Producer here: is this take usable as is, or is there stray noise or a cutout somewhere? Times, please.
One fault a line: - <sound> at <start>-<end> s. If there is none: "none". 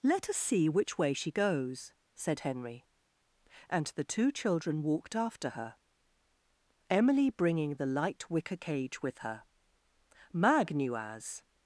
none